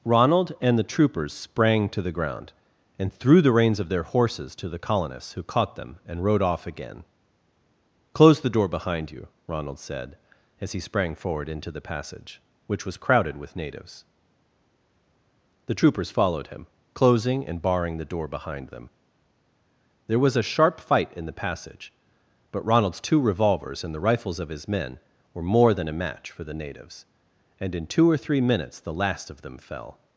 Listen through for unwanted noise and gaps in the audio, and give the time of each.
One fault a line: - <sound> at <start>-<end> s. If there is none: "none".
none